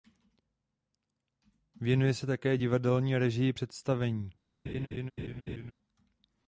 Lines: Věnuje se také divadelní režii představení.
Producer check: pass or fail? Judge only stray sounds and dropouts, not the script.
fail